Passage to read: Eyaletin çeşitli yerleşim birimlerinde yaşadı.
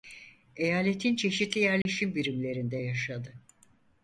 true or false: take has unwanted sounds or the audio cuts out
true